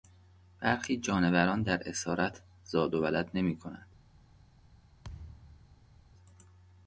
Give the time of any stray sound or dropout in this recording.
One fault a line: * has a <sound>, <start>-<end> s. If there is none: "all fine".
* has a thud, 5.0-6.0 s